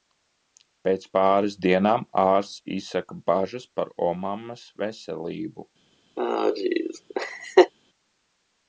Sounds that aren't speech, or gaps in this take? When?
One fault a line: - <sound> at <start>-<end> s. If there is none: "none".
- laugh at 6.2-7.7 s